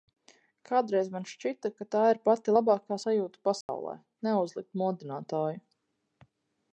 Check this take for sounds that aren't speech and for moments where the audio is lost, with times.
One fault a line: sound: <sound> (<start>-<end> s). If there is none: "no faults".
sound: dropout (3.6-3.7 s)